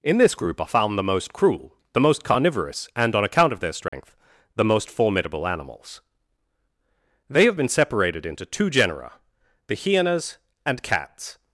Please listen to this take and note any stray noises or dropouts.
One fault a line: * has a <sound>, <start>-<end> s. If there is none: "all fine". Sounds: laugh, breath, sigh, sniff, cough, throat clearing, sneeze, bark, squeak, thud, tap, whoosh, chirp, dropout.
* has a dropout, 3.9-3.9 s